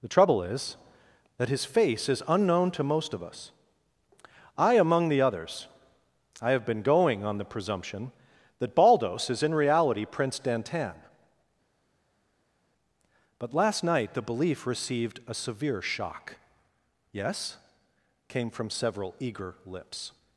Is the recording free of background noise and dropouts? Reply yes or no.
yes